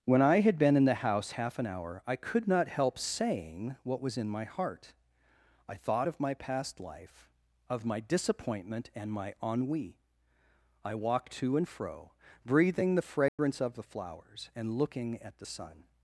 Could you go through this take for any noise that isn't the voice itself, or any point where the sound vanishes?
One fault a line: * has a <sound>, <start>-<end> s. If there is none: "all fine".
* has a dropout, 13.3-13.4 s